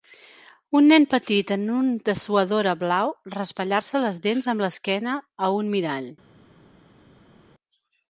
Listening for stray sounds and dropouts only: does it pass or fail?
pass